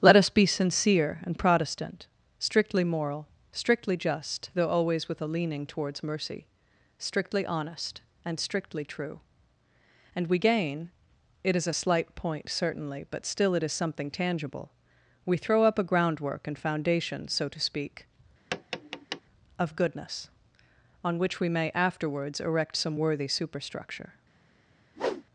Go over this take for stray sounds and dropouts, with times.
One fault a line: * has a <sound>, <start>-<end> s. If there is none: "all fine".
* has a tap, 18.5-19.2 s
* has a whoosh, 25.0-25.2 s